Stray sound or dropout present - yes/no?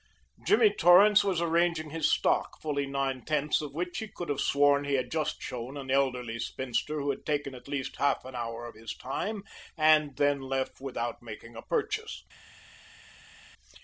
no